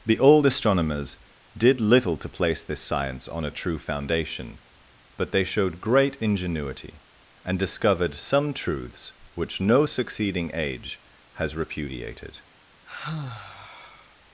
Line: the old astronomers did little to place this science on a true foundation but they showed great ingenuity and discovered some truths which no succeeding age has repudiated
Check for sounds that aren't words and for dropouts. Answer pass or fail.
fail